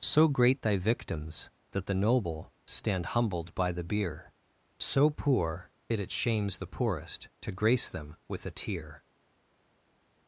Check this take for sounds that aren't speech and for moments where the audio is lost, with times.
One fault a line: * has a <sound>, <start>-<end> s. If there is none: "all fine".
all fine